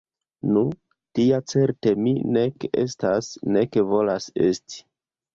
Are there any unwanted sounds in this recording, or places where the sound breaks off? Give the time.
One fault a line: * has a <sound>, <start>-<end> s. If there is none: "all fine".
all fine